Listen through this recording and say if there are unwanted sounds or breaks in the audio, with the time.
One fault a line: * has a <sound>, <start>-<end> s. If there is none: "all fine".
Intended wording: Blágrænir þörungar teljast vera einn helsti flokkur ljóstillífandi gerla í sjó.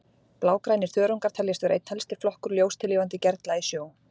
all fine